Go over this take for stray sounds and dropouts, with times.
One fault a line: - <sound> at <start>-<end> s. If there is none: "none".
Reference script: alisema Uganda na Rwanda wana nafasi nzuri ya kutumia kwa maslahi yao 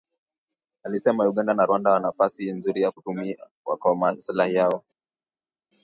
none